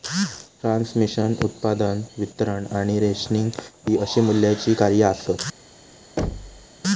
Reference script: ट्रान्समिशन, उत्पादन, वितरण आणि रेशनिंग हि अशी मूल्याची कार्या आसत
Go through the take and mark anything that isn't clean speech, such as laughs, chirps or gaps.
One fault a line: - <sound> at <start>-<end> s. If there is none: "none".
- thud at 6.2-6.7 s